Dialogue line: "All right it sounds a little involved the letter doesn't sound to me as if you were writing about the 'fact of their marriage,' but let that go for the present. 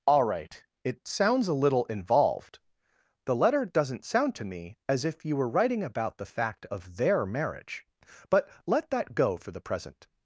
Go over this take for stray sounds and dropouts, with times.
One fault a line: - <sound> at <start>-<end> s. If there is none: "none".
none